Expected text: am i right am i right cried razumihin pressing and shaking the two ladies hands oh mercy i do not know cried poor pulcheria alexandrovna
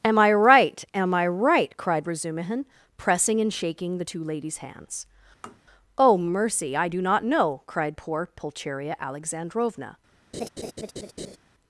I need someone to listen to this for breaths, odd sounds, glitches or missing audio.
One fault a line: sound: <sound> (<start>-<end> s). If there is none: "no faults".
sound: tap (5.4-5.6 s)
sound: laugh (10.3-11.4 s)